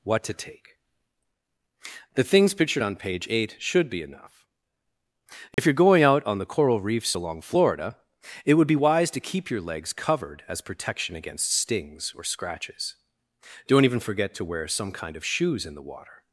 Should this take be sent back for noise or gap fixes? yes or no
yes